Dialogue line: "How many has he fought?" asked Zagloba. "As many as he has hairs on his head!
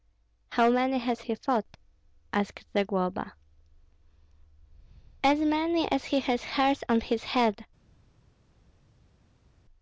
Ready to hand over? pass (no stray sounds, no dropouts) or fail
pass